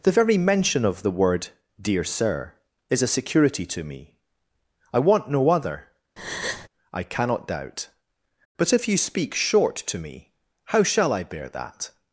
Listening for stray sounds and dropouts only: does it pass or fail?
fail